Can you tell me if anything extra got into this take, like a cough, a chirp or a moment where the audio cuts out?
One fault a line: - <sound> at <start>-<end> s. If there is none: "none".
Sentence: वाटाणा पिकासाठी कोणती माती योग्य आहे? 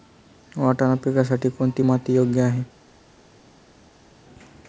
none